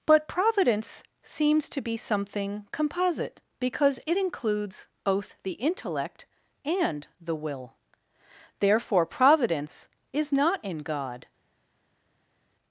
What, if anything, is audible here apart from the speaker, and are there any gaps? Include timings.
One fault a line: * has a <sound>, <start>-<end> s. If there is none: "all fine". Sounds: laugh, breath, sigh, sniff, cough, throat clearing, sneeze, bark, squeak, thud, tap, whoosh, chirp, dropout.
all fine